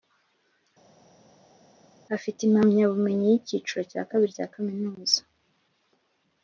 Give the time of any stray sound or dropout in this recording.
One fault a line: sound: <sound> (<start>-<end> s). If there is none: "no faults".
no faults